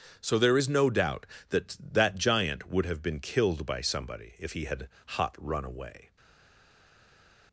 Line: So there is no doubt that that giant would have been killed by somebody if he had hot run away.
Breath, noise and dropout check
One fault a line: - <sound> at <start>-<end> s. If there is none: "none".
none